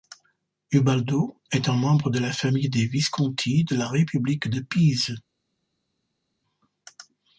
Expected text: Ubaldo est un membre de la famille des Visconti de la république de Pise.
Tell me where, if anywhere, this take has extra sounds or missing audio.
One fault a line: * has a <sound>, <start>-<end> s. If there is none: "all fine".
all fine